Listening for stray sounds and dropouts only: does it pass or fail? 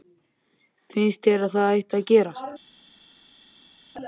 pass